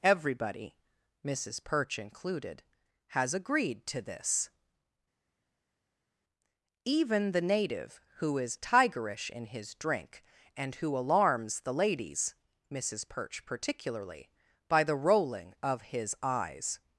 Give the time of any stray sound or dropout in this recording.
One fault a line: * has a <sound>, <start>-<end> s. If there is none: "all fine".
all fine